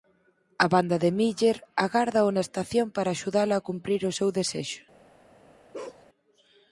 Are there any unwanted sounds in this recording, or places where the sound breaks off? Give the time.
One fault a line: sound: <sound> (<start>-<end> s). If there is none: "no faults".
sound: bark (5.7-6.0 s)